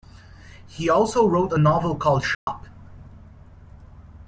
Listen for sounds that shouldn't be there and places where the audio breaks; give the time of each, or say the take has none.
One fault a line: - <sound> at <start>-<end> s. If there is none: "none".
- dropout at 2.3-2.5 s